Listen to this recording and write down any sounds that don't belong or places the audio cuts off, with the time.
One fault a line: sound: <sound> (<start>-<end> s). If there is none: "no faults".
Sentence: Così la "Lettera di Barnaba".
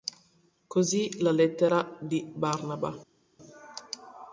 no faults